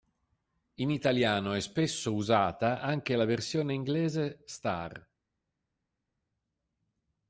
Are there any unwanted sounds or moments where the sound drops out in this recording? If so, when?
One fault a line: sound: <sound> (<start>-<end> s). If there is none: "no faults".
no faults